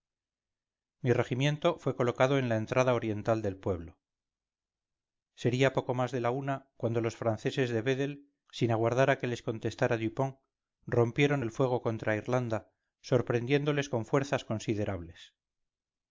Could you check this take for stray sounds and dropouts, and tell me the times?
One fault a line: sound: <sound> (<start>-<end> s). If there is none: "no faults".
no faults